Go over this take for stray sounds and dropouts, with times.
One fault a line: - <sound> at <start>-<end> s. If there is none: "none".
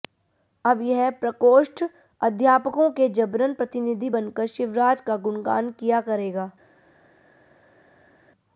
none